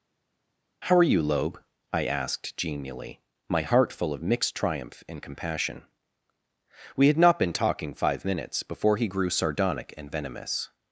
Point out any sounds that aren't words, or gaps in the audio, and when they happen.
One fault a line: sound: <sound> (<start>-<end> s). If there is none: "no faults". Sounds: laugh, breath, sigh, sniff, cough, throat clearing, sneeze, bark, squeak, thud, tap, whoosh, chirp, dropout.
no faults